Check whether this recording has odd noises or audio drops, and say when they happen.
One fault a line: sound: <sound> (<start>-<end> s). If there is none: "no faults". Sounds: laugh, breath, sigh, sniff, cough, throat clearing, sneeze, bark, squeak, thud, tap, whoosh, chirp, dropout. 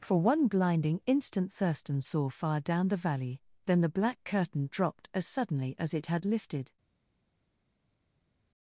no faults